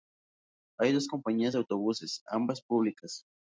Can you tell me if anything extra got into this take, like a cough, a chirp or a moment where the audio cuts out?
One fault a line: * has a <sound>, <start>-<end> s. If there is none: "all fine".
all fine